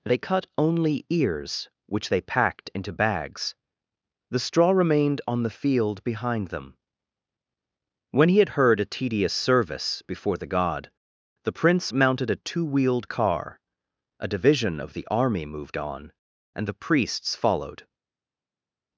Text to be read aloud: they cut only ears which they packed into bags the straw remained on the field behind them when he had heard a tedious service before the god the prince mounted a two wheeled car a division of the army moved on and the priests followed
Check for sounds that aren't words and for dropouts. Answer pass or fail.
pass